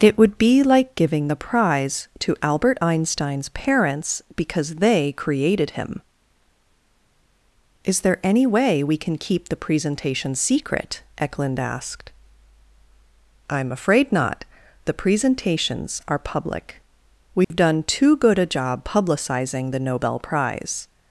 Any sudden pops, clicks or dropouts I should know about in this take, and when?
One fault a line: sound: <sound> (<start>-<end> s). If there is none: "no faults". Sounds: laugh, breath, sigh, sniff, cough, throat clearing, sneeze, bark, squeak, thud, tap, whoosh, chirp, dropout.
sound: dropout (17.4-17.5 s)